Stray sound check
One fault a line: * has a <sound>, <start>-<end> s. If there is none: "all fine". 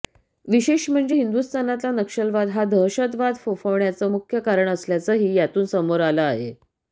all fine